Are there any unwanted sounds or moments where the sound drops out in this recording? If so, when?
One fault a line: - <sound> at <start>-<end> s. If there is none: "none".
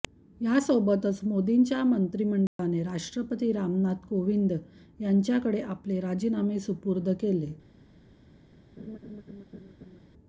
- dropout at 2.5-2.6 s
- laugh at 8.8-10.0 s